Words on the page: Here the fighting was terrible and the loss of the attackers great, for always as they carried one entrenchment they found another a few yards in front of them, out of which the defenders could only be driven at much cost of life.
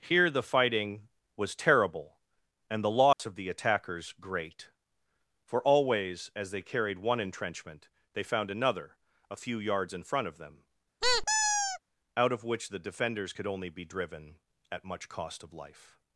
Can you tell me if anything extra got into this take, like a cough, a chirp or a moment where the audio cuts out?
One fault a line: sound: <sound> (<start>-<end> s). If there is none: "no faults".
sound: dropout (3.1-3.2 s)
sound: squeak (11.0-11.8 s)